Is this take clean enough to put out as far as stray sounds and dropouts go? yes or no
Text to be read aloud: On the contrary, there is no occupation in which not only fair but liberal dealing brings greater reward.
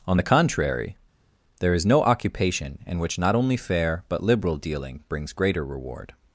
yes